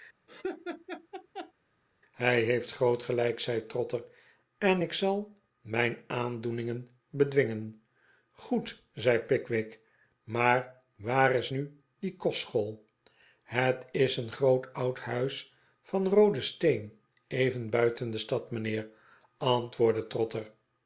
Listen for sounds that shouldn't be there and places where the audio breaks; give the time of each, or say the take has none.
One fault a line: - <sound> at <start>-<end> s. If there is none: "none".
- laugh at 0.3-1.5 s